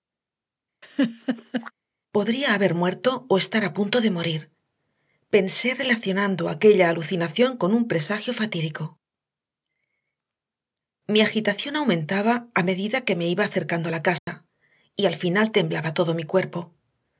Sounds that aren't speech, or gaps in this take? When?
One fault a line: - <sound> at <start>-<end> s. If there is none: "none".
- laugh at 0.8-1.7 s
- dropout at 14.2-14.3 s